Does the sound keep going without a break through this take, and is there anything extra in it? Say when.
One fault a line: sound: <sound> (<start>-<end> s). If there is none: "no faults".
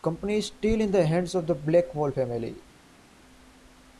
no faults